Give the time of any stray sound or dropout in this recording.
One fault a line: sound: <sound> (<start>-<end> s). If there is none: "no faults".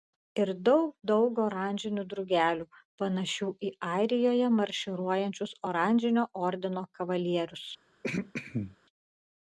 sound: throat clearing (8.0-8.8 s)